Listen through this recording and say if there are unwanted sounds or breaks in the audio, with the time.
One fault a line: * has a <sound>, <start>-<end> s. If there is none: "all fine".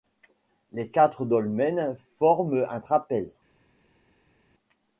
all fine